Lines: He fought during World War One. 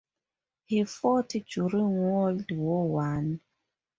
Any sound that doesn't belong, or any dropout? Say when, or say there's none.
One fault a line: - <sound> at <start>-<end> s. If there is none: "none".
none